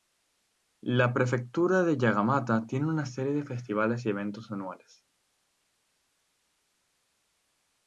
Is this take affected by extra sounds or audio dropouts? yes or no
no